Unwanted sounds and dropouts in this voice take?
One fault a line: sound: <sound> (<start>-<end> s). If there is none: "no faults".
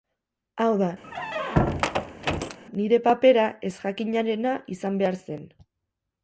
sound: squeak (1.0-2.6 s)